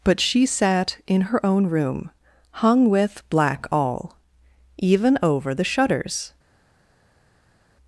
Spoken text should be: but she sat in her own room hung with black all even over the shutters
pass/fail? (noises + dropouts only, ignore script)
pass